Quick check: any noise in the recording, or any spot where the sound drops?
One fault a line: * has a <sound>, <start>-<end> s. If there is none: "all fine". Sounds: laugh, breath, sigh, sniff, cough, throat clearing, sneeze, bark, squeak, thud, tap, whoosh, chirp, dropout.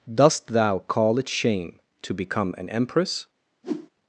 * has a whoosh, 3.6-3.9 s